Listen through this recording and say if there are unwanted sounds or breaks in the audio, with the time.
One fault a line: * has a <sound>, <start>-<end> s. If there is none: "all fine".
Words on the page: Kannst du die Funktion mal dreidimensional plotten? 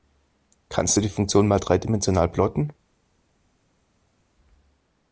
all fine